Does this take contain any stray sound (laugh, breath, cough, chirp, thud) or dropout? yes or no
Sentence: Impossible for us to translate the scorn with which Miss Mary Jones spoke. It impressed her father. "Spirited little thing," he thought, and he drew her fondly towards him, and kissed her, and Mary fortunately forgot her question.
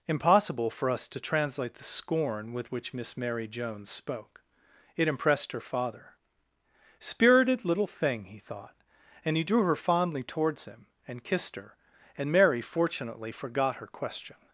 no